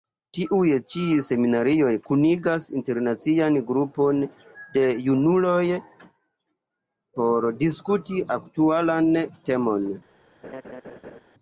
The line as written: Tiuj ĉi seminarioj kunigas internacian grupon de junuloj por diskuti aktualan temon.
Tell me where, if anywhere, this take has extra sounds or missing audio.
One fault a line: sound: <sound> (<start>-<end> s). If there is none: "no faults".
sound: laugh (10.4-11.2 s)